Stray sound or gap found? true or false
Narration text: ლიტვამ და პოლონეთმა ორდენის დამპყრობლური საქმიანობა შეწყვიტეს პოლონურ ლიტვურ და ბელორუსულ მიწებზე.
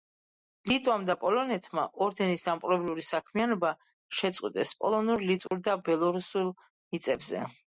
true